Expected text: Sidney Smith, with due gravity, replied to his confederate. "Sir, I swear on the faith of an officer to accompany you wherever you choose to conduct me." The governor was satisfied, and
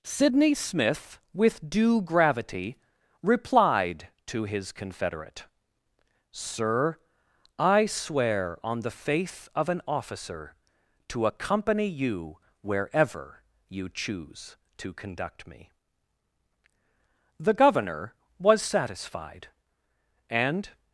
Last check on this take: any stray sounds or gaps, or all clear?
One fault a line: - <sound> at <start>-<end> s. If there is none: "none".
none